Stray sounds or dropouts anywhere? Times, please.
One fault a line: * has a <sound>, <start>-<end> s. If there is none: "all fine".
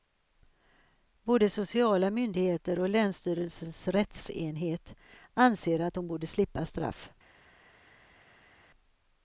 all fine